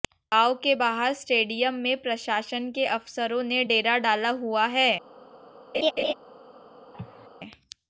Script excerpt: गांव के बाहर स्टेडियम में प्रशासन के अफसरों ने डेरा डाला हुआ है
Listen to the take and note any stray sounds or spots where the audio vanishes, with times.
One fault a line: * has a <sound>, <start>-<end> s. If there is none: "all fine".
* has a laugh, 5.7-6.1 s
* has a cough, 6.9-7.3 s